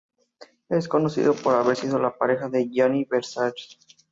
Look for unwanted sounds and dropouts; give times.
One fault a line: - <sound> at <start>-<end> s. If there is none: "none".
none